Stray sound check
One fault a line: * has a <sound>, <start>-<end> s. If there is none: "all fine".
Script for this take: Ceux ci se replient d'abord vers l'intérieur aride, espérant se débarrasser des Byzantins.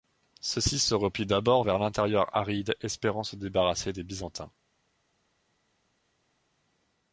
all fine